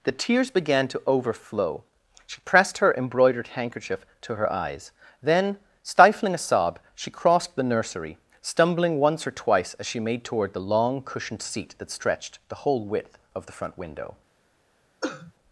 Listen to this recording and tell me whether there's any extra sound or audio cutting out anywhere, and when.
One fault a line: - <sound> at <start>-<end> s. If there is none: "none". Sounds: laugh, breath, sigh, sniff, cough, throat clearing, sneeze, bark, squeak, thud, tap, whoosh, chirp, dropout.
- cough at 15.0-15.3 s